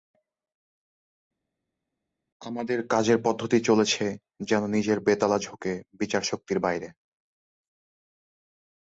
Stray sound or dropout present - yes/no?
no